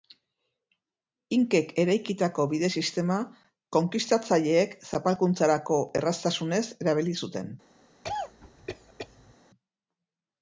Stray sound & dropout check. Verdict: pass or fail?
fail